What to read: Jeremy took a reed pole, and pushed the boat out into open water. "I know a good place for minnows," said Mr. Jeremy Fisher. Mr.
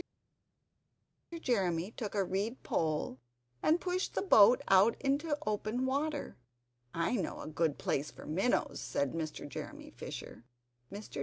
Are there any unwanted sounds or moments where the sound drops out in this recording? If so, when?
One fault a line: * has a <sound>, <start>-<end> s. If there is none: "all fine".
all fine